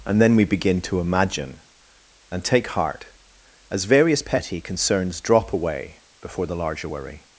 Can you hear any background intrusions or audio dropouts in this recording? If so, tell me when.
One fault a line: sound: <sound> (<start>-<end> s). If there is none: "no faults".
no faults